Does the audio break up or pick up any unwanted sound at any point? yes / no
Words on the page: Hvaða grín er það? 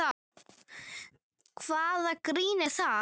no